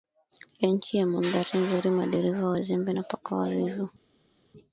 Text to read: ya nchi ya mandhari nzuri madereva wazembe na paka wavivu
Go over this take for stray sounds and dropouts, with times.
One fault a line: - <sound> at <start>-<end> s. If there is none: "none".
none